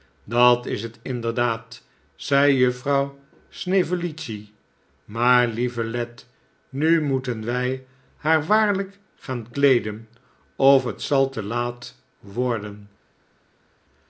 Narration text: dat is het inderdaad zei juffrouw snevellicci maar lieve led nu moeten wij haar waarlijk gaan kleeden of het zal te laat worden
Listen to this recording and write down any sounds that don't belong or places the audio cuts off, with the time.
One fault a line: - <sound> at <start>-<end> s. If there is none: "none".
none